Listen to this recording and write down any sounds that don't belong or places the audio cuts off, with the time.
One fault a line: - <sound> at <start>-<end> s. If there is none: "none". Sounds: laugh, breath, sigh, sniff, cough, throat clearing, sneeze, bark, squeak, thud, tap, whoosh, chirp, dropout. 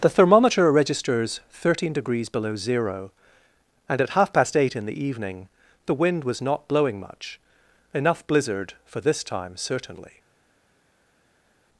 none